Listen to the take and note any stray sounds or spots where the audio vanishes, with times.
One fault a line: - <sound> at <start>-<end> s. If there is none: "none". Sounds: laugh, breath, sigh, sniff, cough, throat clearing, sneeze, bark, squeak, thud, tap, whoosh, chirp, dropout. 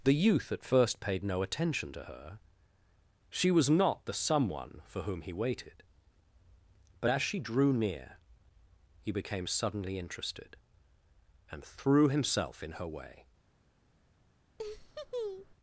- laugh at 14.6-15.5 s